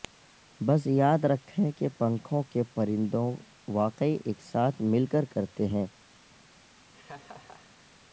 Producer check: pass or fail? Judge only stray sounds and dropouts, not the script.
fail